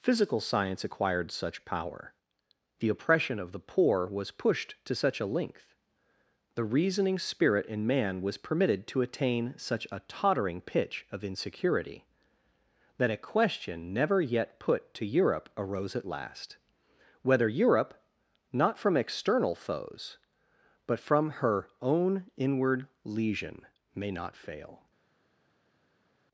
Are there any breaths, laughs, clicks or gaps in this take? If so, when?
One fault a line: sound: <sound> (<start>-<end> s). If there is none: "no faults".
no faults